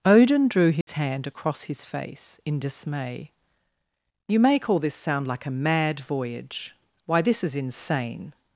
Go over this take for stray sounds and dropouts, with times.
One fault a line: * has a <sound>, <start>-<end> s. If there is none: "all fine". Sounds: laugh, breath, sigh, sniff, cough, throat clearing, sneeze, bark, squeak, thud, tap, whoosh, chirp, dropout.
* has a dropout, 0.8-0.9 s